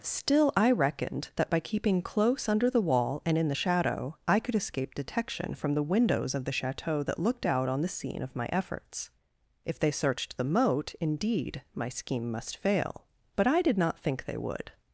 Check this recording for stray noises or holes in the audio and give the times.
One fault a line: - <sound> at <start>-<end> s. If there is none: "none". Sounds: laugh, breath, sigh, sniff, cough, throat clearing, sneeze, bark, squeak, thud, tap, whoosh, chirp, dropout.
none